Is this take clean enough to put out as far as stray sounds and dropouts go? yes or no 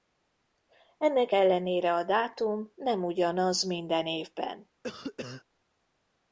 no